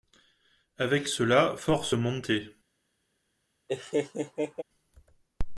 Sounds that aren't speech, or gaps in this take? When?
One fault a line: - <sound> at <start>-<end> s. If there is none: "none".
- laugh at 3.7-4.6 s